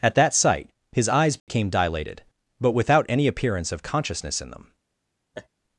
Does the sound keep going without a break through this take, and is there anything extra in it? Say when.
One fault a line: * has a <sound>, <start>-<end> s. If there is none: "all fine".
* has a dropout, 1.4-1.5 s
* has a laugh, 5.3-5.5 s